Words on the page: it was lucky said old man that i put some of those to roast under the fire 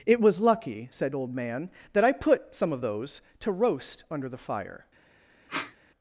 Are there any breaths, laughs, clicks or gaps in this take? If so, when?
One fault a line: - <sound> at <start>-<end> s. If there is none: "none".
- sniff at 5.5-5.7 s